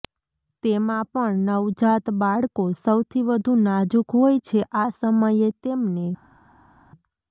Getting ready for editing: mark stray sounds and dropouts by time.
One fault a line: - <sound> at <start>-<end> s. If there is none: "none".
none